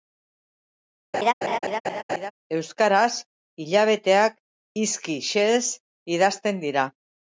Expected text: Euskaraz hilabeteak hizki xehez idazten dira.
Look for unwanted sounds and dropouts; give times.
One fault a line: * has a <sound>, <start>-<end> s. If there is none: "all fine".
* has a laugh, 1.1-2.3 s